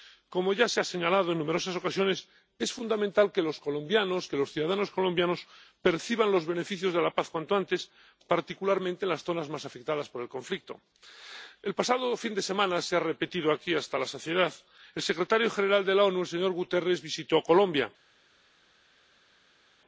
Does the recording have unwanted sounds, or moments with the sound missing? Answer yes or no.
no